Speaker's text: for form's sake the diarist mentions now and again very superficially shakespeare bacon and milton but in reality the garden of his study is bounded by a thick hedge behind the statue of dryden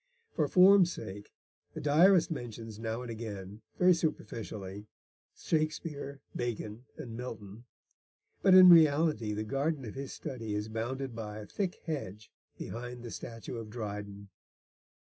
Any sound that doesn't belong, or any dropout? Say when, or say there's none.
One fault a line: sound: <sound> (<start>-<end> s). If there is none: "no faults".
no faults